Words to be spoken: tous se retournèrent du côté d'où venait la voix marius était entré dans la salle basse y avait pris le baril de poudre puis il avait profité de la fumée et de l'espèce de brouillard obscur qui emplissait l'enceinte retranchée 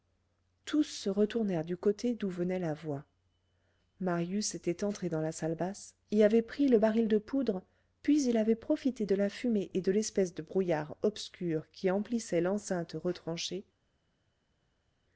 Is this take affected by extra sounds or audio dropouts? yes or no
no